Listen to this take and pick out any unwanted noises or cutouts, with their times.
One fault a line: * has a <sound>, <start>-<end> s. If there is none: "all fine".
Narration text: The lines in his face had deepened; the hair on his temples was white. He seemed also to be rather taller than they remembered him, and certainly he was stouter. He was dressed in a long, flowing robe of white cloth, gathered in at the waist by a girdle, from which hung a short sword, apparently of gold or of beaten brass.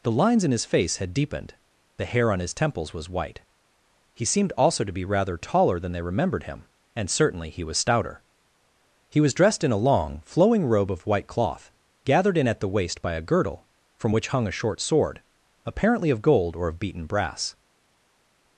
all fine